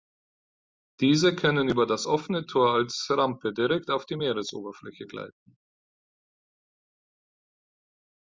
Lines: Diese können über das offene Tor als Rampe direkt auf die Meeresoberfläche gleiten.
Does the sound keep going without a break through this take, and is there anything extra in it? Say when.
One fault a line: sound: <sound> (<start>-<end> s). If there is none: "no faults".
no faults